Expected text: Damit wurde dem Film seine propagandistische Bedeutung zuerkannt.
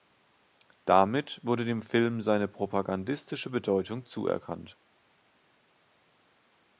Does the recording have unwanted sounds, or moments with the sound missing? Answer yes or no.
no